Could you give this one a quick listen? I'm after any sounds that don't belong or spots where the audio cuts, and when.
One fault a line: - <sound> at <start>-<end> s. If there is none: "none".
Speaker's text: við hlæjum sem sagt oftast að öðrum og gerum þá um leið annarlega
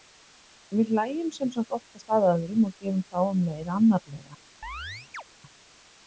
- chirp at 4.6-5.2 s